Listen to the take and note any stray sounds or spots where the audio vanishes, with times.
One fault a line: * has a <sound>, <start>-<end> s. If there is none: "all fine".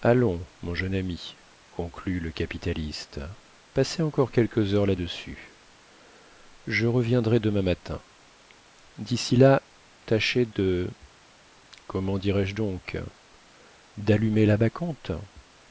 all fine